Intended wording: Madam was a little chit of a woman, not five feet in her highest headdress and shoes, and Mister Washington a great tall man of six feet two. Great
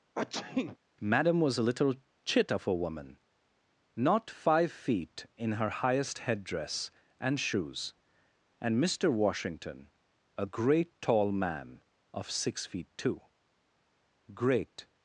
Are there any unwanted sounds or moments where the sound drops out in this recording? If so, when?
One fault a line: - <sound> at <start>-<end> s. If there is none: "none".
- sneeze at 0.1-0.8 s